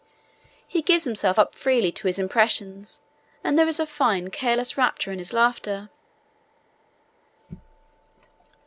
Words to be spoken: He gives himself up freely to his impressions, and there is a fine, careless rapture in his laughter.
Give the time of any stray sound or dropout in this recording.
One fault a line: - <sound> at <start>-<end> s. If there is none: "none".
none